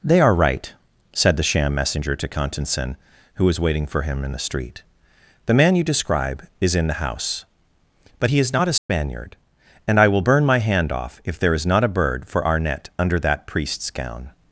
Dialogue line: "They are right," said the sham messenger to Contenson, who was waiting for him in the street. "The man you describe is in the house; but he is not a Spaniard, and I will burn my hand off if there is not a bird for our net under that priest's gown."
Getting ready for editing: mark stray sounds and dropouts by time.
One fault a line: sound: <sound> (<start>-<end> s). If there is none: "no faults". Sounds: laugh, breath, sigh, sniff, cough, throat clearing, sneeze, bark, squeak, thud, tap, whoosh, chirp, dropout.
sound: dropout (8.8-8.9 s)